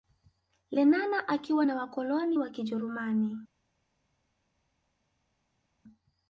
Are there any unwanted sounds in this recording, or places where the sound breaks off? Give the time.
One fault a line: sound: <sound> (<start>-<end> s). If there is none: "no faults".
no faults